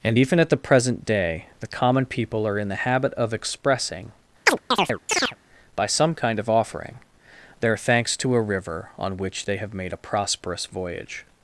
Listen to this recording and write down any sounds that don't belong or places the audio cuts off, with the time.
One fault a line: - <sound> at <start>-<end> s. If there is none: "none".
- chirp at 4.5-5.4 s